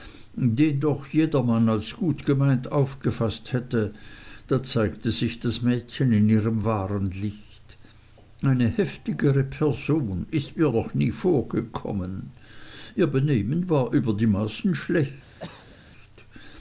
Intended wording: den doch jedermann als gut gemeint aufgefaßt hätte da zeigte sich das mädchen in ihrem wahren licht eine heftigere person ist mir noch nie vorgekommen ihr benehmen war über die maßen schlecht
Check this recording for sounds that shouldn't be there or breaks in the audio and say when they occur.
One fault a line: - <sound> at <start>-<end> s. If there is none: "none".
- cough at 15.4-15.8 s